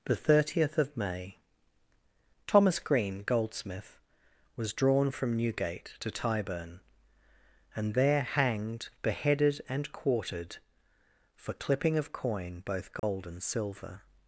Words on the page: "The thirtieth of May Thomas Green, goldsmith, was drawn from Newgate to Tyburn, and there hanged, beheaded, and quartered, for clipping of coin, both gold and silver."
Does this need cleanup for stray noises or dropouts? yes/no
yes